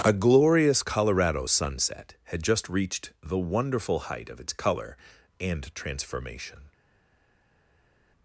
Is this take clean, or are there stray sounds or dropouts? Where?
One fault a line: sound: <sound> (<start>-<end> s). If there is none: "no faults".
no faults